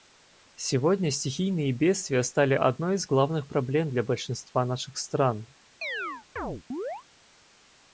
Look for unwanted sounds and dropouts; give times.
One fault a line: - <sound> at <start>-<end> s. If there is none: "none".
- chirp at 5.8-7.0 s